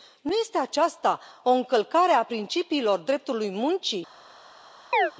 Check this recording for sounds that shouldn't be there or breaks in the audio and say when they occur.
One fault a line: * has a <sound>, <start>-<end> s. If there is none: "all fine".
* has a chirp, 4.9-5.1 s